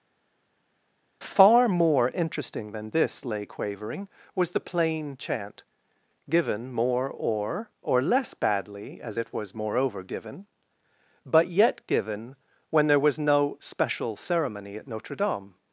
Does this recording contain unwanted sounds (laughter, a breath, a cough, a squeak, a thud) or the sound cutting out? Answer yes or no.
no